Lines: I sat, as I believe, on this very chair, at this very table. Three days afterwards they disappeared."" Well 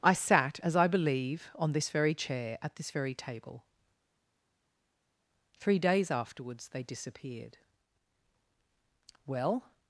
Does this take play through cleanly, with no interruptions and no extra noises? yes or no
yes